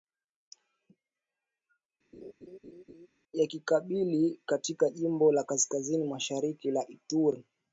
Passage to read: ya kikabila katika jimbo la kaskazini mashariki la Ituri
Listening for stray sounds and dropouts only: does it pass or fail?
fail